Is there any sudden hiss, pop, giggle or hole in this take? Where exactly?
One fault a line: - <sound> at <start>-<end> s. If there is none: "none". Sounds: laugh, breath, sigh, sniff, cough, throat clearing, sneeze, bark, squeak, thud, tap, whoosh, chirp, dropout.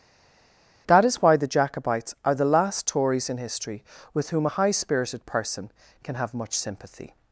none